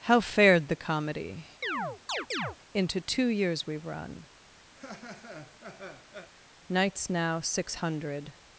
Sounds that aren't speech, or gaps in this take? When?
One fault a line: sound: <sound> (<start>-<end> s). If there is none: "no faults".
sound: chirp (1.6-2.6 s)
sound: laugh (4.7-6.3 s)